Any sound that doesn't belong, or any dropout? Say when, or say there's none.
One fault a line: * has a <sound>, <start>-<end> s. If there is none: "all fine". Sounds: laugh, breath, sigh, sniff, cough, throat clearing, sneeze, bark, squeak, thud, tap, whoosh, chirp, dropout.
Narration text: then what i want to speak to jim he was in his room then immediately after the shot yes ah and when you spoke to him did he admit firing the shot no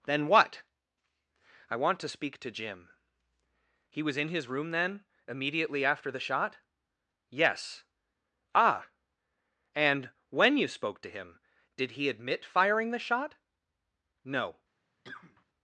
* has a cough, 15.0-15.5 s